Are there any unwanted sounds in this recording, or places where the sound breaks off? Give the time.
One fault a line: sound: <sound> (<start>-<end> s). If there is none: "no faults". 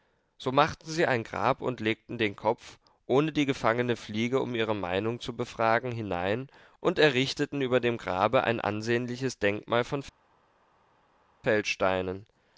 no faults